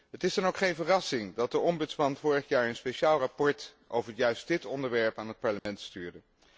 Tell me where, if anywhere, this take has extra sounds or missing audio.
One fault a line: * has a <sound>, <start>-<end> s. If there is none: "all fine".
* has a dropout, 5.6-5.7 s